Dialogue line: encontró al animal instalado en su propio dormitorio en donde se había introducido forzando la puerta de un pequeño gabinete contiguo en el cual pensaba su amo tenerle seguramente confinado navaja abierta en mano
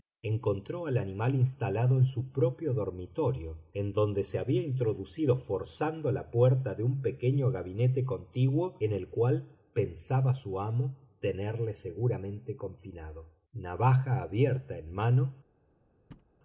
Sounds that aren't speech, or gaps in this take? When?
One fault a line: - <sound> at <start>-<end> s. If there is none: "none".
- thud at 16.1-16.3 s